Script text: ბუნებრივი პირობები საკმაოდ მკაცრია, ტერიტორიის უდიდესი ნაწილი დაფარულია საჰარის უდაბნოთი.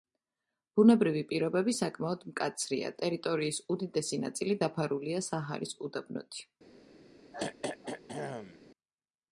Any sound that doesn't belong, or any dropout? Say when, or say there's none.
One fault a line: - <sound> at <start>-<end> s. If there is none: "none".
- throat clearing at 7.3-8.6 s